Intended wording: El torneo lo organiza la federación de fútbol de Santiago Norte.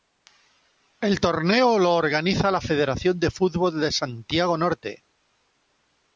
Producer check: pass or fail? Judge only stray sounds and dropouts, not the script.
pass